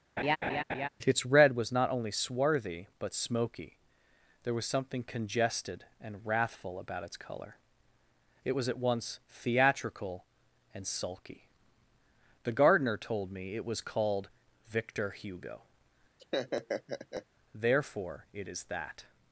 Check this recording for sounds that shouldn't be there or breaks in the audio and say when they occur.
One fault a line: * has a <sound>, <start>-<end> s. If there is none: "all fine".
* has a laugh, 0.2-0.9 s
* has a laugh, 16.2-17.3 s